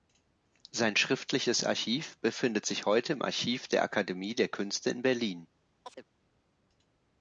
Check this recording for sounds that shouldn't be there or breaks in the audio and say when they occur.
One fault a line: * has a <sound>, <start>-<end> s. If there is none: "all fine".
* has a chirp, 5.8-6.1 s